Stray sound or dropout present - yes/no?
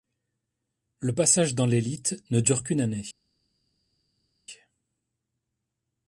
no